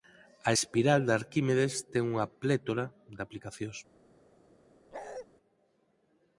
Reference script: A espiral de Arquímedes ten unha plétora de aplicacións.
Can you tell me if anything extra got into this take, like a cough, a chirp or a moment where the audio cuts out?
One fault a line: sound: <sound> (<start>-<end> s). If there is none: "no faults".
sound: bark (4.9-5.3 s)